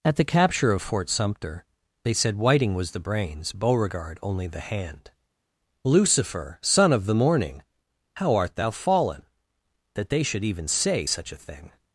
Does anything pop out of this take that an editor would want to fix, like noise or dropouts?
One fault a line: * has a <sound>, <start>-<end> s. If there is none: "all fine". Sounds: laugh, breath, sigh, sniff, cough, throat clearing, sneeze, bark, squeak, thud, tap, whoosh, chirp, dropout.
all fine